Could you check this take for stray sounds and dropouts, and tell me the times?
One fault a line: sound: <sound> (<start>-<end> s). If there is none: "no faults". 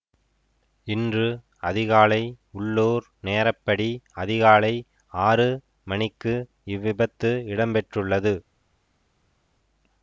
no faults